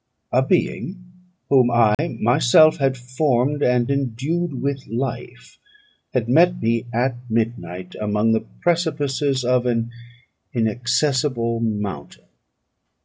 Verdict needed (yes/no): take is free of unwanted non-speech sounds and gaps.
no